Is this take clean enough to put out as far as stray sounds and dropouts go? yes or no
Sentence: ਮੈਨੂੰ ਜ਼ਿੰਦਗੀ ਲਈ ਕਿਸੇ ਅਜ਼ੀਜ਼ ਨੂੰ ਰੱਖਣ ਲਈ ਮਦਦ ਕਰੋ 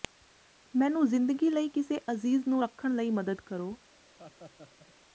no